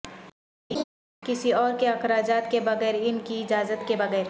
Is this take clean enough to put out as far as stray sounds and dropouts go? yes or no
no